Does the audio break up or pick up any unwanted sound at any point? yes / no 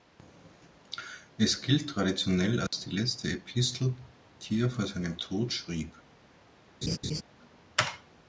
yes